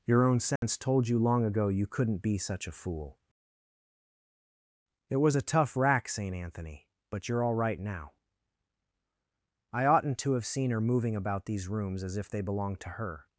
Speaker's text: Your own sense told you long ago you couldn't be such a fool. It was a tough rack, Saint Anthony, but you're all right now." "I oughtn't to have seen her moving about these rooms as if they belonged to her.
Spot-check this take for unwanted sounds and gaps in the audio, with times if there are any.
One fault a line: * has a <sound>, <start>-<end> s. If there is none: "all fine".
* has a dropout, 0.6-0.6 s